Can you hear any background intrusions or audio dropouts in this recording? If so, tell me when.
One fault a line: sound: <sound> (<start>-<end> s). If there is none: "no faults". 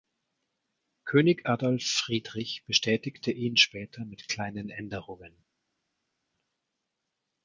no faults